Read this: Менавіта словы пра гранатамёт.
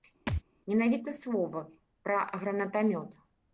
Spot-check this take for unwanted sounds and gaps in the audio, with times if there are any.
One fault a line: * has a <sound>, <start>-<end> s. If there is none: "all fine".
* has a thud, 0.3-0.4 s